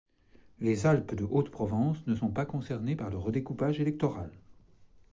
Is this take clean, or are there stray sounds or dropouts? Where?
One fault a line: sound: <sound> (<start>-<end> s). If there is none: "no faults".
no faults